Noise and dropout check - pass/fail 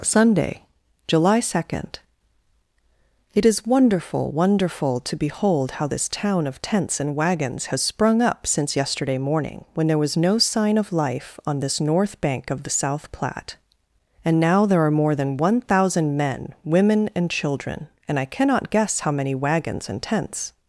pass